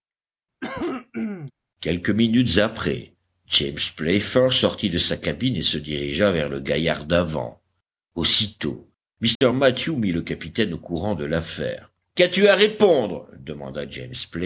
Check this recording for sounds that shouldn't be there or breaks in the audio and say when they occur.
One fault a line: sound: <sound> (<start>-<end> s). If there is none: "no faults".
sound: cough (0.6-1.5 s)
sound: dropout (9.4-9.4 s)